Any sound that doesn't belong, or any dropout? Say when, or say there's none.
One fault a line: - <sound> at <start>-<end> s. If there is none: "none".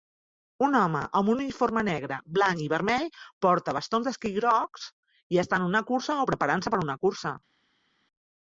none